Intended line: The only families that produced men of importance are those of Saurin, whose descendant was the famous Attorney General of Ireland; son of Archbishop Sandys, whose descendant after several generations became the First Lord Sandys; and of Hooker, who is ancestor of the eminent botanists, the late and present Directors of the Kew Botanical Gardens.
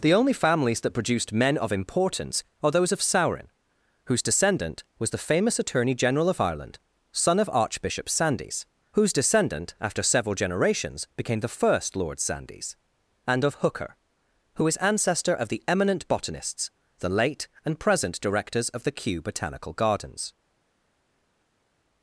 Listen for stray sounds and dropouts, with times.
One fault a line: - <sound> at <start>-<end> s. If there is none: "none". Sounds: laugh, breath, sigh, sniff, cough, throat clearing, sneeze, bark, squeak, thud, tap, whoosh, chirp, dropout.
none